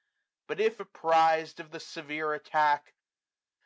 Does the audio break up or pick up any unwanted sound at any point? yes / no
no